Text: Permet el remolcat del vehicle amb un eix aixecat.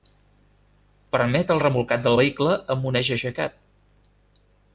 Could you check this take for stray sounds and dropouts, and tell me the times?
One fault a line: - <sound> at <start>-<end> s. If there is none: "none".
none